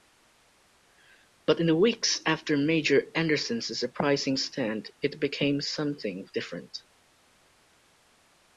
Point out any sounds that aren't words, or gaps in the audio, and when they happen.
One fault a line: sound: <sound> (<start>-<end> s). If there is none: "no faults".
no faults